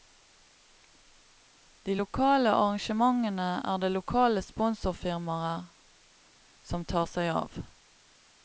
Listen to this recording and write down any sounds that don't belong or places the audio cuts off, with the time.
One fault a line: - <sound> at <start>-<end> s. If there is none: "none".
none